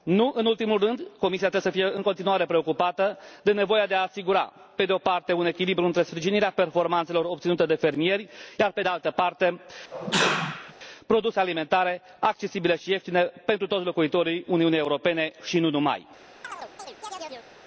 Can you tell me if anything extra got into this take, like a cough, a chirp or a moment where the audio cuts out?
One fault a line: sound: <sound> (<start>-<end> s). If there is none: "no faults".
sound: sneeze (9.9-10.7 s)
sound: chirp (16.4-17.5 s)